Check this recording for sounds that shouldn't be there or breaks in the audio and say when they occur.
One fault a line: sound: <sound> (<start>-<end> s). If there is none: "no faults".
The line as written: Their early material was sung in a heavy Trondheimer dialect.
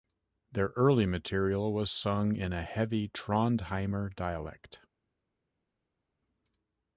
no faults